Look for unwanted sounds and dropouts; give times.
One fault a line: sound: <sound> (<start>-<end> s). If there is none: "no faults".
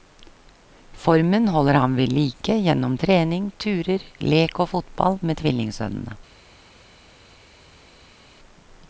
no faults